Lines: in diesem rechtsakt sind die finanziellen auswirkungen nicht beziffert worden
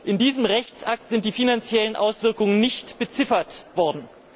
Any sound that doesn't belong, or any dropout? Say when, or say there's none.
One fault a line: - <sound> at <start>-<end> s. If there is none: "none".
none